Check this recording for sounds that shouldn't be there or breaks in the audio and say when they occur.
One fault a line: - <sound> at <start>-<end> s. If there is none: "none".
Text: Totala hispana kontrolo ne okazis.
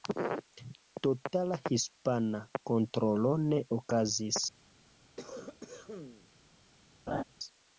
- cough at 5.2-6.3 s
- laugh at 7.1-7.2 s